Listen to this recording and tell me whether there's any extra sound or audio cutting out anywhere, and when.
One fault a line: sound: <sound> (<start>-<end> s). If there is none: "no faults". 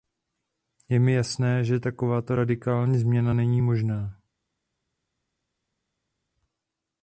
no faults